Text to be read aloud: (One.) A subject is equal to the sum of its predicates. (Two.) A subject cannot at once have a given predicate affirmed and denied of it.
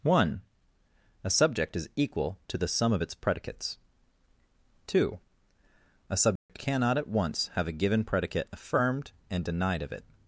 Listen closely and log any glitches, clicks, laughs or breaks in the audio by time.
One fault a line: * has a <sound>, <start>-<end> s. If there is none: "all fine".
* has a dropout, 6.4-6.5 s